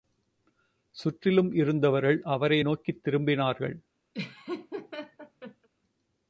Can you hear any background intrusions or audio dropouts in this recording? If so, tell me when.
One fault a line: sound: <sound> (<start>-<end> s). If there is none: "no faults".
sound: laugh (4.1-5.7 s)